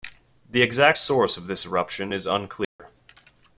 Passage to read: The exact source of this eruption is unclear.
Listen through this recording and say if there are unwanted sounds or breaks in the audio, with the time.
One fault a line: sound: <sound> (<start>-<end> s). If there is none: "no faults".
sound: dropout (2.6-2.8 s)